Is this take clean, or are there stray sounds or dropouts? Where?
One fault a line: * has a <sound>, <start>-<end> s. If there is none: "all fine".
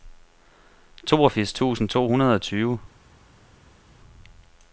all fine